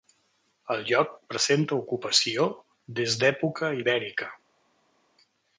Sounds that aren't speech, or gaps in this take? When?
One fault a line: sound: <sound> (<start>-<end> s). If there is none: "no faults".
no faults